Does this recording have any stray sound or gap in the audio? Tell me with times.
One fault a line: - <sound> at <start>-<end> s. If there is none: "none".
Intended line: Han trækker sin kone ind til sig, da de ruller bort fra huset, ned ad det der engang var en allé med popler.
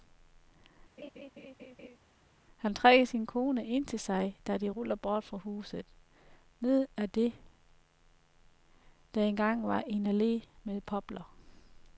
- laugh at 1.0-2.0 s